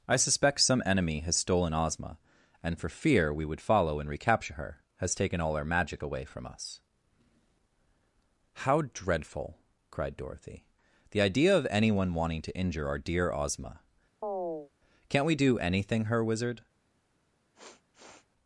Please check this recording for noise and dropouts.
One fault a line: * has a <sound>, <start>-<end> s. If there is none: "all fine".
* has a chirp, 14.2-14.7 s
* has a sniff, 17.5-18.3 s